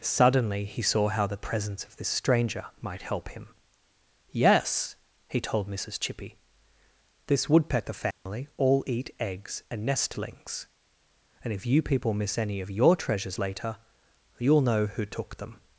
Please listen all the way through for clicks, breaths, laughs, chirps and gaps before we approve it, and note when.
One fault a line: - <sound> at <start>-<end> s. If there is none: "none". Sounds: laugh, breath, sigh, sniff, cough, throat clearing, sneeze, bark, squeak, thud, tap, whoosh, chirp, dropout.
- dropout at 8.1-8.3 s